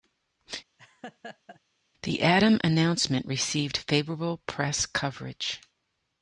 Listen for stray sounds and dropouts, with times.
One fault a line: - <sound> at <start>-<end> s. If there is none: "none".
- laugh at 0.8-1.6 s